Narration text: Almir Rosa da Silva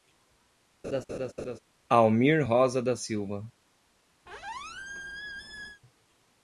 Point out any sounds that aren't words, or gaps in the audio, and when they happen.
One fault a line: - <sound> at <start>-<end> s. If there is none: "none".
- laugh at 0.8-1.6 s
- squeak at 4.3-5.8 s